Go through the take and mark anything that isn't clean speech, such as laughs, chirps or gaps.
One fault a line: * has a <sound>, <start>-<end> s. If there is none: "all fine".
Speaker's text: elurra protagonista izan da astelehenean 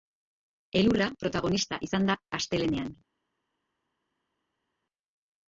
all fine